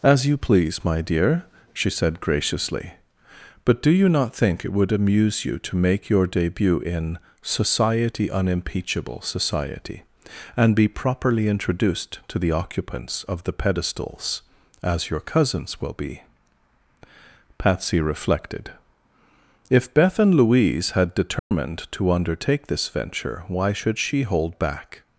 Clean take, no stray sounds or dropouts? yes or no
no